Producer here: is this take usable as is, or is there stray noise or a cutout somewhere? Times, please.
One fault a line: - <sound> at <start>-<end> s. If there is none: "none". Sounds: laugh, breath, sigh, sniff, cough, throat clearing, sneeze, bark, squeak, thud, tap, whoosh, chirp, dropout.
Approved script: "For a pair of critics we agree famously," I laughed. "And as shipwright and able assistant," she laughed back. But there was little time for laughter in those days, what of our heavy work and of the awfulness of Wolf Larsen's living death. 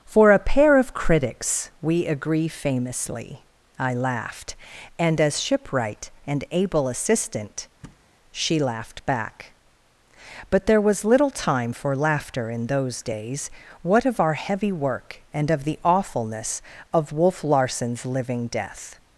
- thud at 7.8-8.1 s